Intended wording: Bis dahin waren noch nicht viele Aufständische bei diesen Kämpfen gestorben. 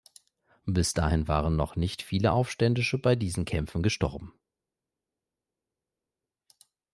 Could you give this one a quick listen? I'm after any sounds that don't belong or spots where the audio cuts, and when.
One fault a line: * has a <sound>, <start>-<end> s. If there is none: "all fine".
all fine